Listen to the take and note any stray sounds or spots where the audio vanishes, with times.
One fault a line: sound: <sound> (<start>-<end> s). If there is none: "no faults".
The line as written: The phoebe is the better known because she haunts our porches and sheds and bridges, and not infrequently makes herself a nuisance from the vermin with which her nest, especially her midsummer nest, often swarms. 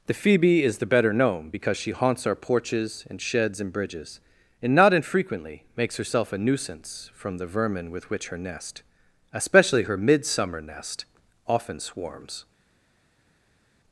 no faults